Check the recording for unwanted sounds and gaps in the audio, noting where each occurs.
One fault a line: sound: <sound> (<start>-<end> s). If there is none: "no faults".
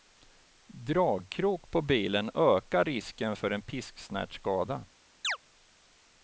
sound: chirp (5.2-5.4 s)